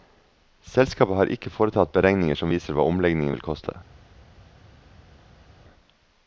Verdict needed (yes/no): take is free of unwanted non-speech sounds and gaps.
yes